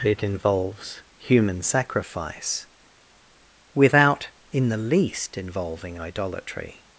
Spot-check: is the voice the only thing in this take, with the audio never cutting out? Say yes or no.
yes